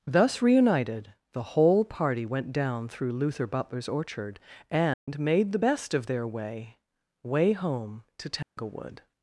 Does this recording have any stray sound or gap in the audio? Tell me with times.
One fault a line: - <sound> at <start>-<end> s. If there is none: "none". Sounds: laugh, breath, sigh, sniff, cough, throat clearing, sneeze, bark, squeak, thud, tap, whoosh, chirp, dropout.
- dropout at 4.9-5.1 s
- dropout at 8.4-8.6 s